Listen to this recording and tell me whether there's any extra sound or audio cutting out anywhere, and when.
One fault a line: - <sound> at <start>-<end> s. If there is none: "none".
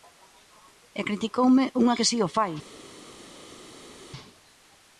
none